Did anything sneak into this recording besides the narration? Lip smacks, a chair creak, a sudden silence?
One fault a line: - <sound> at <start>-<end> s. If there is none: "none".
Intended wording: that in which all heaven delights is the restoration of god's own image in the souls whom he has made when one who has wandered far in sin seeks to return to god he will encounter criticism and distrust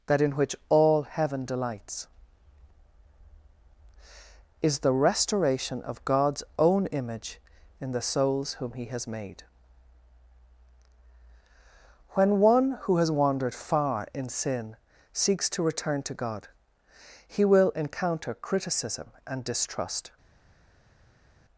none